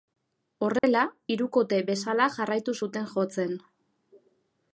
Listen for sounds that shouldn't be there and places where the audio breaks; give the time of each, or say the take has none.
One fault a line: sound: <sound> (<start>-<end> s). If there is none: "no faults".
sound: dropout (0.8-0.8 s)